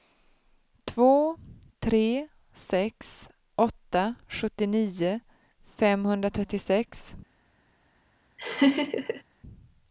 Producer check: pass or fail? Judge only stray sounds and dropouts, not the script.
fail